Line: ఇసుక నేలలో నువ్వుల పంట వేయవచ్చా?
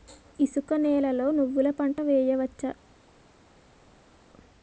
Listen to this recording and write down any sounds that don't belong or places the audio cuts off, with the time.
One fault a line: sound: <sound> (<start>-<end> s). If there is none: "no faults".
no faults